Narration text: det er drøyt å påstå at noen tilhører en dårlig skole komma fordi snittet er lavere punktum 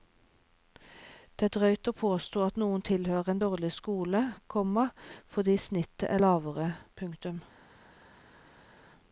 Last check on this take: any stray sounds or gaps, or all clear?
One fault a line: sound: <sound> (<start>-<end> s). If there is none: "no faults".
no faults